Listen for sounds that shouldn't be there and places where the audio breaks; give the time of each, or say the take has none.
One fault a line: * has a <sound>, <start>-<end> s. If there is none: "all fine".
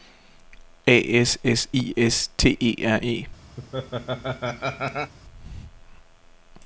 * has a laugh, 3.6-5.1 s